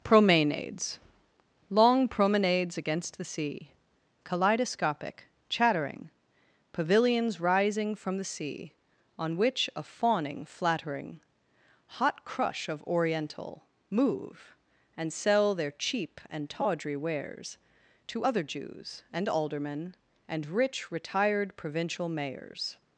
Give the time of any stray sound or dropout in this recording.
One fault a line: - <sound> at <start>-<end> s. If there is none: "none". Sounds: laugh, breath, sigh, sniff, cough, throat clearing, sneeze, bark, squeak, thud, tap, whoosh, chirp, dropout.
none